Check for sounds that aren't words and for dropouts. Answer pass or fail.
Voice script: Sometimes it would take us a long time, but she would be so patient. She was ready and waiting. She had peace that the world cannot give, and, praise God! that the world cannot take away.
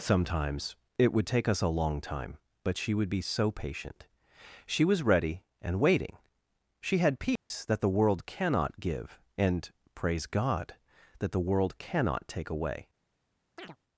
fail